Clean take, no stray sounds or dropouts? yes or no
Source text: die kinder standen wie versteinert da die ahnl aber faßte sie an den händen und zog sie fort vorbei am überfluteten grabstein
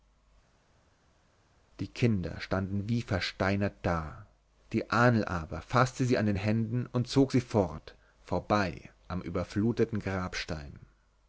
yes